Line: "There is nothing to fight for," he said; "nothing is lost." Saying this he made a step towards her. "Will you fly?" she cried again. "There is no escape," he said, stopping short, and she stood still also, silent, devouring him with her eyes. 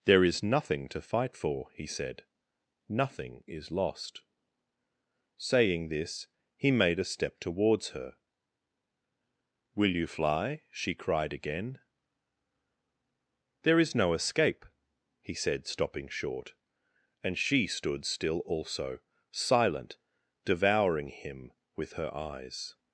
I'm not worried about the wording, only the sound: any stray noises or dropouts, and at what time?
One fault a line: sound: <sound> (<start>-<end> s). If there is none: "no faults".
no faults